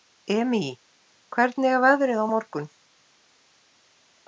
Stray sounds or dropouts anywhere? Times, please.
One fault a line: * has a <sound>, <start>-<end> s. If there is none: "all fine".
all fine